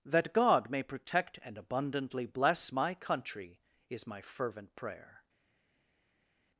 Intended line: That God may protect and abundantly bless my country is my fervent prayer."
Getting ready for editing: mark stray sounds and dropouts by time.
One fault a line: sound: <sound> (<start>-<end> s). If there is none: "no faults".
no faults